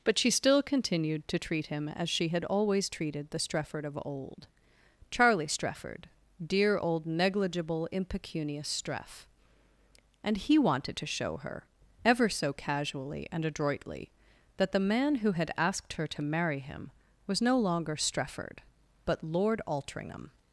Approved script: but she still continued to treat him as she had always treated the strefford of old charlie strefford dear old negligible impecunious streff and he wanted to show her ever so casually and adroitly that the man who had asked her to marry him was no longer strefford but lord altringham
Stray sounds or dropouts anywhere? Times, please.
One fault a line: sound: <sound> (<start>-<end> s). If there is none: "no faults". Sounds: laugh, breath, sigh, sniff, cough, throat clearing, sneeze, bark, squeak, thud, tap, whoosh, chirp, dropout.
no faults